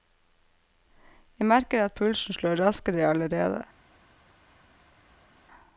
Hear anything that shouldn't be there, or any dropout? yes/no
no